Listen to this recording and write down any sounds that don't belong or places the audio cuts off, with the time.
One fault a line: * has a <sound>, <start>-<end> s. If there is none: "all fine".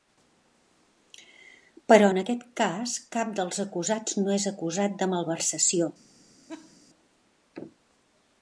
* has a laugh, 6.5-6.8 s